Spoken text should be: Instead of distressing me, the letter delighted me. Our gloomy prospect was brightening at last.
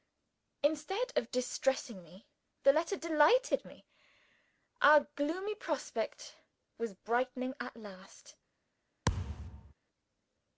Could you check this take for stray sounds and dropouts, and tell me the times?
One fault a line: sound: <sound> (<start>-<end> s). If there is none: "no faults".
sound: thud (9.0-9.7 s)